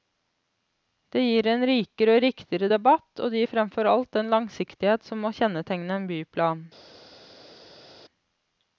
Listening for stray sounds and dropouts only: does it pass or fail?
pass